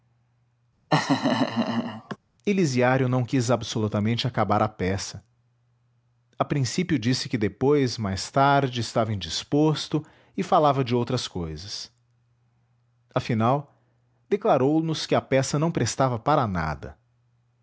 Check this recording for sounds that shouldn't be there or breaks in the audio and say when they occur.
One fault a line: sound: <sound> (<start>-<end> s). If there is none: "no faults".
sound: laugh (0.9-2.2 s)